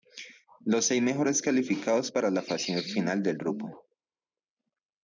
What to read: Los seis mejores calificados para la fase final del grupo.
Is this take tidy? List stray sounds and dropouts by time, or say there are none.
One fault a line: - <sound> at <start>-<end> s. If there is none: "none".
none